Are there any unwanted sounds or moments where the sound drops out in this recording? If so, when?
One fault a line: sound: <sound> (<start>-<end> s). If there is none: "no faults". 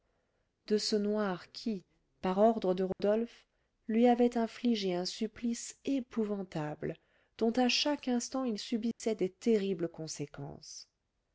sound: dropout (2.9-3.0 s)
sound: dropout (8.9-9.0 s)